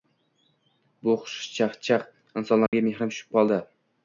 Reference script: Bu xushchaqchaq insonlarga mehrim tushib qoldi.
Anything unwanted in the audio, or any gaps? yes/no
yes